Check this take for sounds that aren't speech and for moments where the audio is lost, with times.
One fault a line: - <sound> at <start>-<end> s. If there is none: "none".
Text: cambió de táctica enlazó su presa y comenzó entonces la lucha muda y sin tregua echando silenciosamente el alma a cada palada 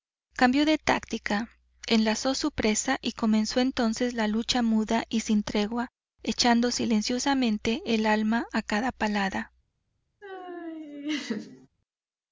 - laugh at 10.2-11.7 s